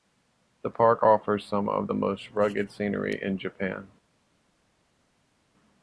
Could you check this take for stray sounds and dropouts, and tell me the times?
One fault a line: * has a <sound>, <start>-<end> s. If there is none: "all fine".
all fine